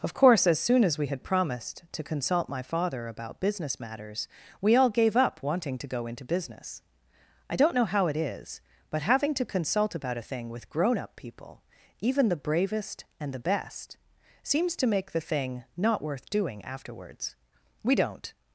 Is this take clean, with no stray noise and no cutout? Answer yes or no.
yes